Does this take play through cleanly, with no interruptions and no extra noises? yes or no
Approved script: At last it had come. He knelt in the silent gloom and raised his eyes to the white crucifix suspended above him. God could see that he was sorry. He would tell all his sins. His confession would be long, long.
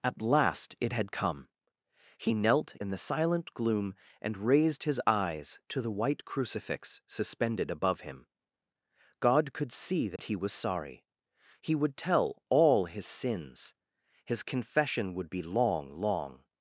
no